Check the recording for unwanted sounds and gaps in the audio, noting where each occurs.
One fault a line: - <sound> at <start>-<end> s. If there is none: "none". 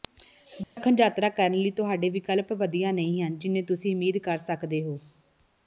- dropout at 0.6-0.8 s